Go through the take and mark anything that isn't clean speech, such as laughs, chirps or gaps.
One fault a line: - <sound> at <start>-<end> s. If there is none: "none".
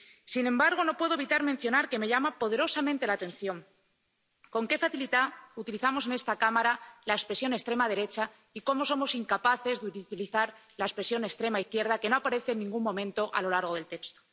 none